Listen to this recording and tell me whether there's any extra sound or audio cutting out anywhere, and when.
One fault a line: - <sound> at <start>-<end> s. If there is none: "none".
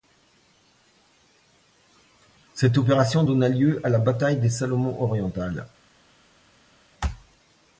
none